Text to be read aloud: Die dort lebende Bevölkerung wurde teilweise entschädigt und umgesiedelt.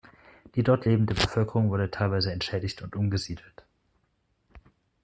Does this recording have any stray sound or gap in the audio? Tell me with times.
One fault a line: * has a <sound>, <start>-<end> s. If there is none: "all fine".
all fine